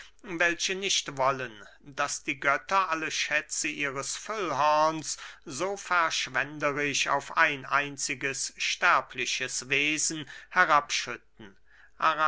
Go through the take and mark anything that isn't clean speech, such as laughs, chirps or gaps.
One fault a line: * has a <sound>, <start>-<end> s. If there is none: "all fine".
all fine